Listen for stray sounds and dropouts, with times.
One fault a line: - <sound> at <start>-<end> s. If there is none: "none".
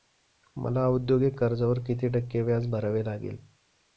none